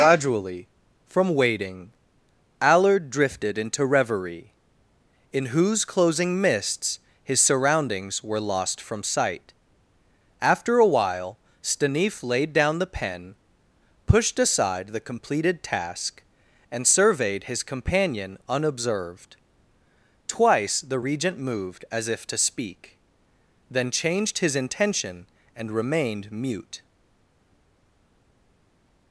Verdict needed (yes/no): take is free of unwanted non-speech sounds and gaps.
yes